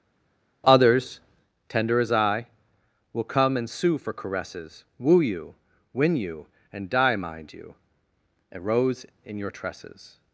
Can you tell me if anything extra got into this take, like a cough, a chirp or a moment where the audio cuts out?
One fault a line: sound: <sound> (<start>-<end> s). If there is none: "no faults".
no faults